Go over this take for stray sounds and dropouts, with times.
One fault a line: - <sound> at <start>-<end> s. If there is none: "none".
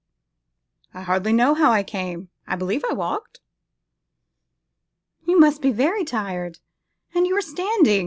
none